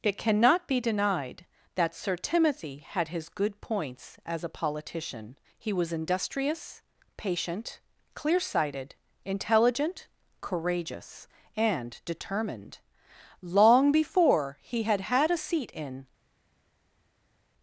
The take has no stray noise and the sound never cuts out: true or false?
true